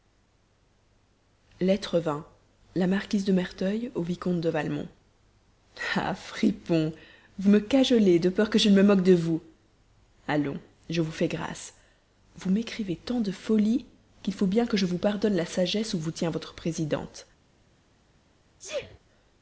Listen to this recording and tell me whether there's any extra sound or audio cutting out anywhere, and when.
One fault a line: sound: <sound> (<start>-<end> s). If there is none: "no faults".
sound: sneeze (18.6-19.0 s)